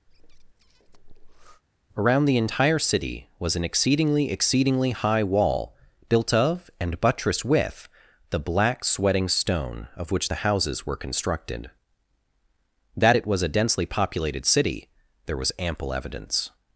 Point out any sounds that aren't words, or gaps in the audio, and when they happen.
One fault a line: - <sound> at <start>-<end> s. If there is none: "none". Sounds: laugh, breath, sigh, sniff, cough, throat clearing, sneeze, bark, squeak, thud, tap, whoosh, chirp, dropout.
- breath at 0.1-1.6 s